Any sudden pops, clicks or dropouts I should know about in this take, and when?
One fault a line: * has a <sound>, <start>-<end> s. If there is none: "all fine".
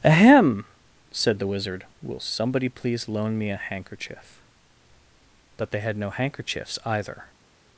all fine